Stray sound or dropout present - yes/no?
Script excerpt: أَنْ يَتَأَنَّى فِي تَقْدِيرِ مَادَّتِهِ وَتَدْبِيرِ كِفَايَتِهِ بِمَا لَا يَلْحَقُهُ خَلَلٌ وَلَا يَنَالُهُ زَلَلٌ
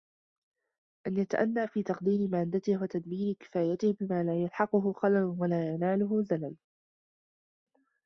no